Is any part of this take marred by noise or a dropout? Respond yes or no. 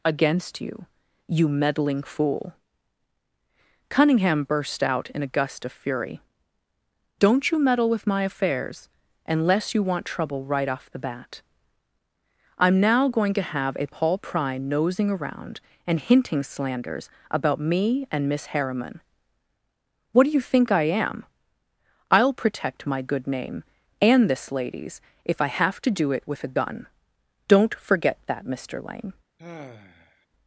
yes